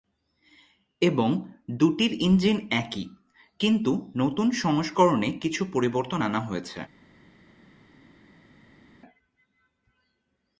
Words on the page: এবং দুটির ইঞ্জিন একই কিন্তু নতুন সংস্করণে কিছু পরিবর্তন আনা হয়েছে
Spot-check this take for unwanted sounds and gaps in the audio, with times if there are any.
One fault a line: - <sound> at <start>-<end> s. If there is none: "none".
none